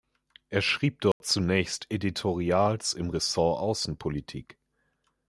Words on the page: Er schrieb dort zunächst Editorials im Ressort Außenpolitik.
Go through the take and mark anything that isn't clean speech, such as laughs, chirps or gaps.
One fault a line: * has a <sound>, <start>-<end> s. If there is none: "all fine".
* has a dropout, 1.1-1.2 s